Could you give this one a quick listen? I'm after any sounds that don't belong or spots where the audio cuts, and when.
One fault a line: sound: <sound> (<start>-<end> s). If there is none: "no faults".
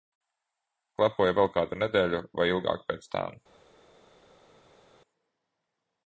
no faults